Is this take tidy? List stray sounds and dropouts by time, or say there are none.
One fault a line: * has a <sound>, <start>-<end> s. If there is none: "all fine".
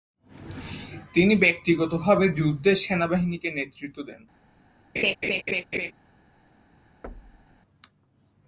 * has a laugh, 5.0-5.9 s
* has a thud, 7.0-7.6 s